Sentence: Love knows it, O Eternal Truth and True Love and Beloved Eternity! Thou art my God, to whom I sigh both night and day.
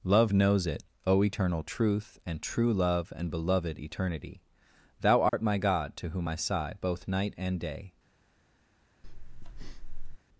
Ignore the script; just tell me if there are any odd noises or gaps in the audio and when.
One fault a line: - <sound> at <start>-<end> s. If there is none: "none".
- dropout at 5.3-5.3 s
- breath at 9.0-10.2 s